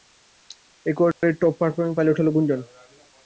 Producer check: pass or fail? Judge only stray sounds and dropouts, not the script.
fail